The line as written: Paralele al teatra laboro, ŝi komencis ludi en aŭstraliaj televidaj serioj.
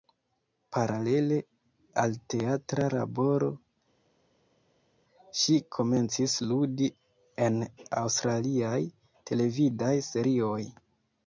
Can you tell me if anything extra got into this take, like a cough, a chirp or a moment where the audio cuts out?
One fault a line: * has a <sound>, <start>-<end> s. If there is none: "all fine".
all fine